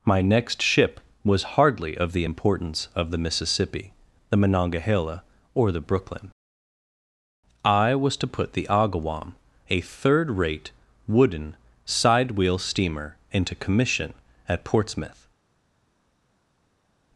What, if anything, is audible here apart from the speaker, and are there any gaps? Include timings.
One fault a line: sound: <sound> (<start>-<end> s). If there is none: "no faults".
no faults